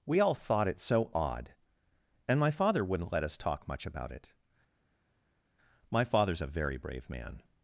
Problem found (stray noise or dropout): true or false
false